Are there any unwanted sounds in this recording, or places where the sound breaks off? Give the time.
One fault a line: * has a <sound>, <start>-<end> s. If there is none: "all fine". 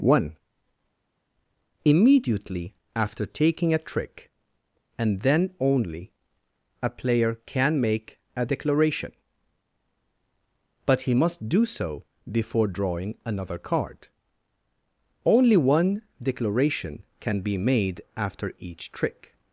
all fine